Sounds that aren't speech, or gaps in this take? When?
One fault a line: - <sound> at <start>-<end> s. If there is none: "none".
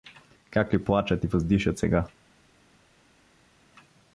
none